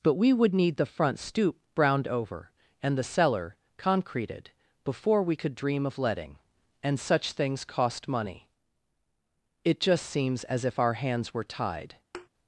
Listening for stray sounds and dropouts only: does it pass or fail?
fail